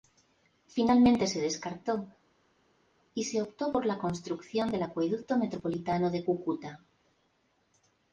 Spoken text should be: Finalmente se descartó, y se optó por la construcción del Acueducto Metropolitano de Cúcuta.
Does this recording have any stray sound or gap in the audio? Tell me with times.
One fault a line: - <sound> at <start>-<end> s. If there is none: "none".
none